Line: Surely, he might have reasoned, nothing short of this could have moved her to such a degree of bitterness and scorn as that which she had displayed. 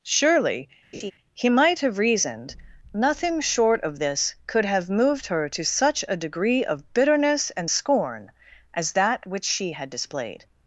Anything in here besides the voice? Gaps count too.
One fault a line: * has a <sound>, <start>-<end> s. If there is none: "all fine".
* has a laugh, 0.9-1.1 s